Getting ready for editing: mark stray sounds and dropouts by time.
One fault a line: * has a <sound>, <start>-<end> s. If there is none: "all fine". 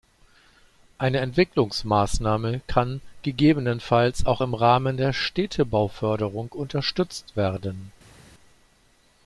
all fine